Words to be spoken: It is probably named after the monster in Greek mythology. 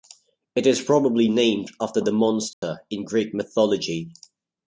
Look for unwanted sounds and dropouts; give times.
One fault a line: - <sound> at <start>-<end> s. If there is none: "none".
- dropout at 2.5-2.6 s